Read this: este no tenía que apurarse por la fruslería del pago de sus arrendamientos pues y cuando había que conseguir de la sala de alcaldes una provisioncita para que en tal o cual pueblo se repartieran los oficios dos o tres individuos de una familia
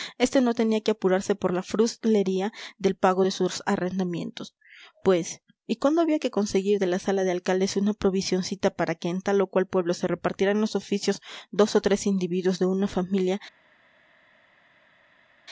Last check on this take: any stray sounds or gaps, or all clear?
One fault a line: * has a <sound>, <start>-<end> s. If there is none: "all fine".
all fine